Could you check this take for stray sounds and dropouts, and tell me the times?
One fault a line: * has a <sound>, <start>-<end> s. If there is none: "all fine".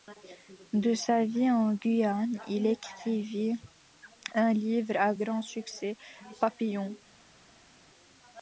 all fine